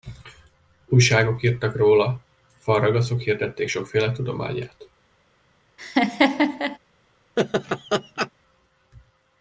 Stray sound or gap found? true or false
true